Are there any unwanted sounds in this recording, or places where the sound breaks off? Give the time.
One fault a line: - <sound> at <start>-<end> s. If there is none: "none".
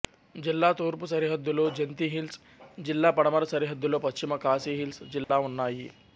- dropout at 5.2-5.3 s